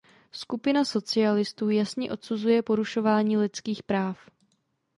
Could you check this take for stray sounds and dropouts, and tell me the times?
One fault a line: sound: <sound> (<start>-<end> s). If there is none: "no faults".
no faults